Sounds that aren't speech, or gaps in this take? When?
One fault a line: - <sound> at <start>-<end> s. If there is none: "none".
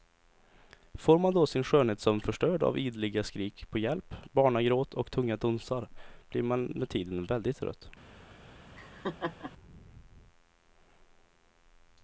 - laugh at 8.8-9.5 s